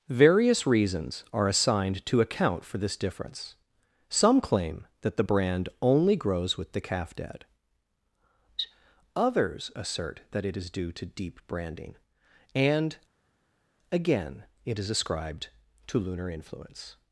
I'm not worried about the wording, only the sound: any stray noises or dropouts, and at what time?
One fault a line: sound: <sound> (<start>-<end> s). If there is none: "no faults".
no faults